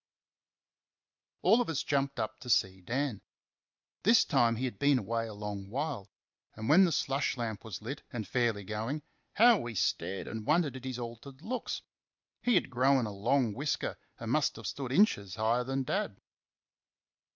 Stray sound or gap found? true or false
false